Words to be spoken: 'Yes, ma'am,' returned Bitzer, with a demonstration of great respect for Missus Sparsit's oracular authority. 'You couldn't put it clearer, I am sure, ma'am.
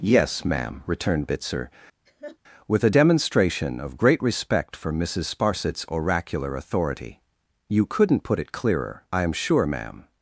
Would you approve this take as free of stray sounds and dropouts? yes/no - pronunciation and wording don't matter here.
no